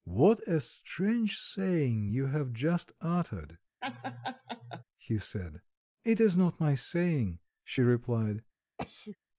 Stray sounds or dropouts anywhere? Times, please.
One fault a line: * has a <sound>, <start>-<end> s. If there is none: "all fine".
* has a laugh, 3.8-4.8 s
* has a sneeze, 8.8-9.2 s